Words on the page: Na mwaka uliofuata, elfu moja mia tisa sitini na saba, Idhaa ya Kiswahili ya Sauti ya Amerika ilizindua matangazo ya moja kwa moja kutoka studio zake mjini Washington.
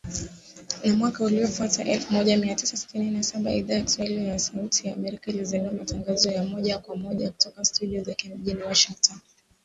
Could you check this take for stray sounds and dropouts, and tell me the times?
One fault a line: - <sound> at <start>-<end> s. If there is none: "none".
none